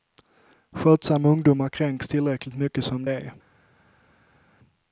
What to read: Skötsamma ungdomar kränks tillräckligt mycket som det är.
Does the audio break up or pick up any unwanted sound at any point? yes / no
no